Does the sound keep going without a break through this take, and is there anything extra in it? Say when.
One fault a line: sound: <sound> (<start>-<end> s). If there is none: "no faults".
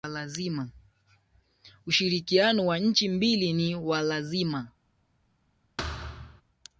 sound: thud (5.8-6.4 s)